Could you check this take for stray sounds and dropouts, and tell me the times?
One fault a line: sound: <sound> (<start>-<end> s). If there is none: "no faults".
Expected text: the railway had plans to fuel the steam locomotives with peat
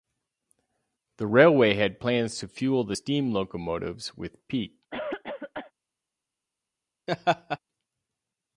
sound: cough (4.9-5.7 s)
sound: laugh (7.1-7.6 s)